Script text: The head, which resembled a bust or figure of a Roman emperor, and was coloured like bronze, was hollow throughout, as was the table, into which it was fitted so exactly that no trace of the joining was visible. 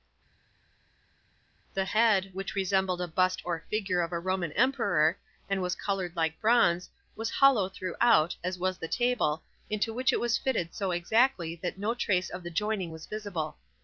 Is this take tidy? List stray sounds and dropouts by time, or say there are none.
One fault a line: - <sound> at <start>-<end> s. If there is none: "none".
none